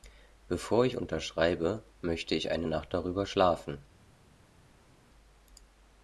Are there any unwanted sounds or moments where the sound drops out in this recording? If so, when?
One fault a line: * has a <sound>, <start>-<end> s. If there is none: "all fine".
all fine